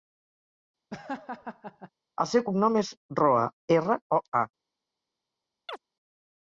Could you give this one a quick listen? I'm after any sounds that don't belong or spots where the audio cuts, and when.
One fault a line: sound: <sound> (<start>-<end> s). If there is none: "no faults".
sound: laugh (0.9-1.9 s)
sound: chirp (5.7-5.8 s)